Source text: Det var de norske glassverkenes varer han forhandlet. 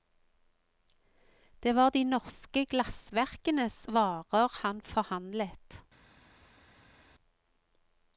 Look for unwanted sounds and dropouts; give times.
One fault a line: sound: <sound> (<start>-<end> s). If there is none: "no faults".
no faults